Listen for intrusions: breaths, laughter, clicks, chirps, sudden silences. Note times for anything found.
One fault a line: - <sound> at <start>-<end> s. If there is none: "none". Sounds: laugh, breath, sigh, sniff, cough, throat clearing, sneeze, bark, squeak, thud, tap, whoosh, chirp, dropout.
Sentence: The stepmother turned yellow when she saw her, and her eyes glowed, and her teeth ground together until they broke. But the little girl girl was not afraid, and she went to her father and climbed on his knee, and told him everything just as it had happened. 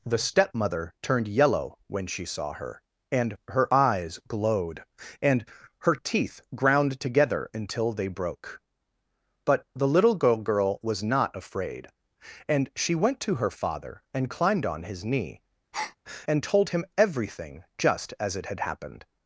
- breath at 15.7-16.0 s